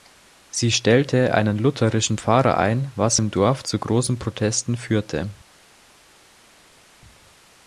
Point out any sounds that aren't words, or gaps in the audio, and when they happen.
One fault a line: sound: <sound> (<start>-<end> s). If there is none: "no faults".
no faults